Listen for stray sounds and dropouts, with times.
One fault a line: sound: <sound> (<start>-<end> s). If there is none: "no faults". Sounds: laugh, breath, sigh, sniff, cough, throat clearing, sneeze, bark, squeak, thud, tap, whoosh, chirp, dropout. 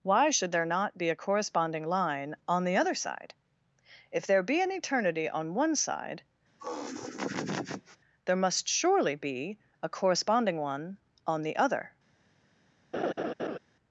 sound: laugh (6.6-8.0 s)
sound: laugh (12.9-13.6 s)